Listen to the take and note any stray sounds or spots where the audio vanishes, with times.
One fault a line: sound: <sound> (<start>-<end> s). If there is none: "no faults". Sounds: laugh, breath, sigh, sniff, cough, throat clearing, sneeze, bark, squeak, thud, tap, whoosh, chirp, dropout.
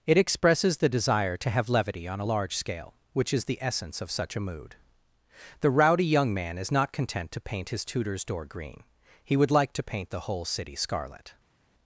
no faults